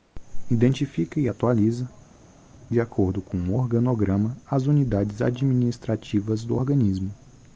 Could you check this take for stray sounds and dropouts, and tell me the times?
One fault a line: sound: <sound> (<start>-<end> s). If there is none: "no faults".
no faults